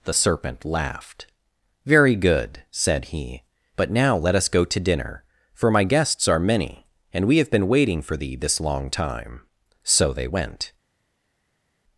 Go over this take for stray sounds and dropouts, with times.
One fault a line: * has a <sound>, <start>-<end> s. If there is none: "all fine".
all fine